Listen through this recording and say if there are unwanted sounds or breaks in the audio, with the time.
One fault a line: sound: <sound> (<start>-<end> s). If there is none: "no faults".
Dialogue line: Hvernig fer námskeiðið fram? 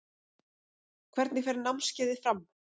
no faults